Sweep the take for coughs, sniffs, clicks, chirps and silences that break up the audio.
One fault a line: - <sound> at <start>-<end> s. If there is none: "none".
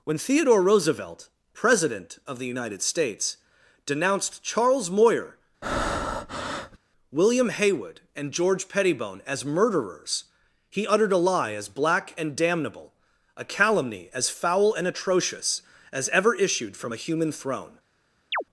- breath at 5.6-6.8 s
- chirp at 18.3-18.4 s